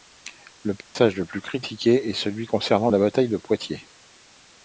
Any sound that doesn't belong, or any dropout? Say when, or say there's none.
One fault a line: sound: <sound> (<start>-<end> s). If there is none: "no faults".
sound: dropout (0.8-1.0 s)